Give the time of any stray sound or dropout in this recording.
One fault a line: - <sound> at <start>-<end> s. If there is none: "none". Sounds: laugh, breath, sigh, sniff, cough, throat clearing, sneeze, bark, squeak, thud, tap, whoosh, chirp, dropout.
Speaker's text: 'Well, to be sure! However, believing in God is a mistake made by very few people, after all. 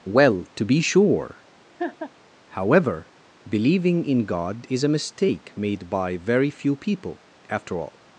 - laugh at 1.8-2.1 s